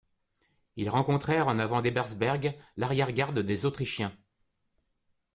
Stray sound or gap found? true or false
false